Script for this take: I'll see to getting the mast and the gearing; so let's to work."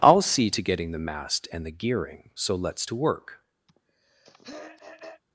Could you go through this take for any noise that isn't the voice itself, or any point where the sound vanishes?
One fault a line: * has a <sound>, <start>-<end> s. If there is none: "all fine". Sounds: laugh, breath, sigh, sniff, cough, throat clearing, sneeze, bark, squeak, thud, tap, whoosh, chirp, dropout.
* has a throat clearing, 3.7-5.2 s